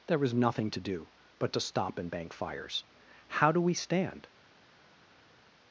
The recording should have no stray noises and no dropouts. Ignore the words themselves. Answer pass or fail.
pass